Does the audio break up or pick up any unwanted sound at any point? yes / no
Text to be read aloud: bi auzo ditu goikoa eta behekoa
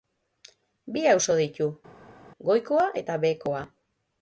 no